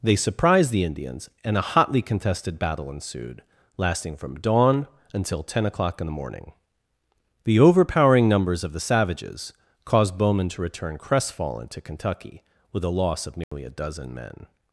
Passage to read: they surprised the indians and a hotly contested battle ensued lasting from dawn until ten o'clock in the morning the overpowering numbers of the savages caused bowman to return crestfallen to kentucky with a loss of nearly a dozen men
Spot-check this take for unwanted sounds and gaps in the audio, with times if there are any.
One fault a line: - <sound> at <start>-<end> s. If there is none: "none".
- dropout at 13.4-13.5 s